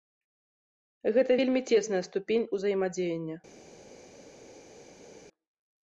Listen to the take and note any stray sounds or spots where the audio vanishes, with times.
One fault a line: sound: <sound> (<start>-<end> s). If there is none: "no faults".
no faults